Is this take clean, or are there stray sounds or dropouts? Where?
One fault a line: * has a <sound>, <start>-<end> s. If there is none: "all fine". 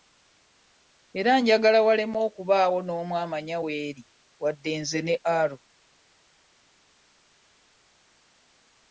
all fine